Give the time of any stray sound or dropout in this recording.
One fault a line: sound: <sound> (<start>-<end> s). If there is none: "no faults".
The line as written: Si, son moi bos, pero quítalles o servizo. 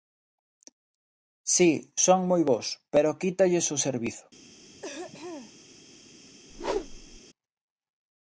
sound: throat clearing (4.7-5.5 s)
sound: whoosh (6.5-7.2 s)